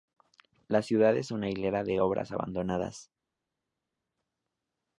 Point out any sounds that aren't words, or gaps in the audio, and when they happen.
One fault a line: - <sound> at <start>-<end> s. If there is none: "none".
none